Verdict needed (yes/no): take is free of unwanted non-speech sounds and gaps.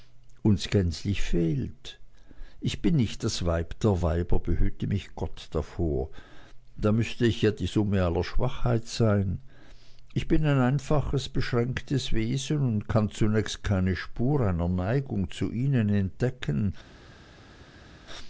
yes